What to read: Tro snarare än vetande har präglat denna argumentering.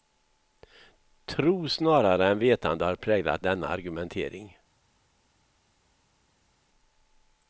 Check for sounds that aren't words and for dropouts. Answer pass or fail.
pass